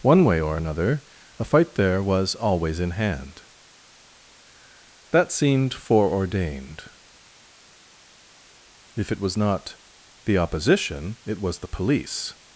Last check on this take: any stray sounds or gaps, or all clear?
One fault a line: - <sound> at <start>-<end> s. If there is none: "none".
none